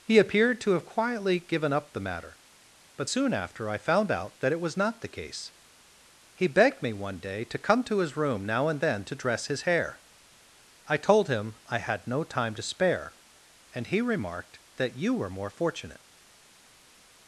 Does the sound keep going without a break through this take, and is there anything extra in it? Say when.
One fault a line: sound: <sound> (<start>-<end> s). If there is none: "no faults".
no faults